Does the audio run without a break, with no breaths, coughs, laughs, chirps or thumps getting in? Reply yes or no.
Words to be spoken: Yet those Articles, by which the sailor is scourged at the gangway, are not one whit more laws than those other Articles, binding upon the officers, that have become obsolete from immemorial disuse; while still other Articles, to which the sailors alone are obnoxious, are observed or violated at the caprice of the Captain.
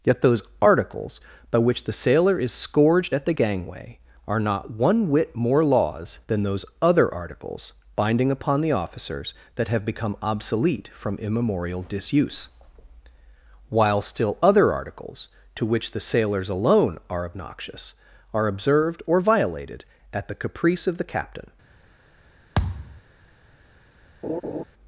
no